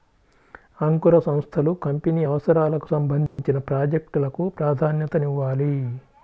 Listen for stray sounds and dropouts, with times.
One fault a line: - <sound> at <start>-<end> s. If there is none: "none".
- dropout at 3.3-3.4 s